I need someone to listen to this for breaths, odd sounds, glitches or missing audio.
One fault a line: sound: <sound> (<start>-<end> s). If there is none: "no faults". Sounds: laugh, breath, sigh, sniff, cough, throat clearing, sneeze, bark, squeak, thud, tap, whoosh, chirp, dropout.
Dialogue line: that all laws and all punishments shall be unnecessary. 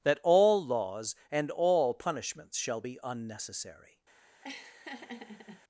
sound: laugh (4.4-5.6 s)